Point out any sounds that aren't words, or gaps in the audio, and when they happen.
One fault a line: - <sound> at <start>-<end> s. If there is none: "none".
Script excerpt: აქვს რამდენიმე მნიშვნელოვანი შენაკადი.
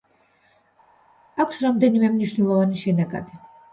none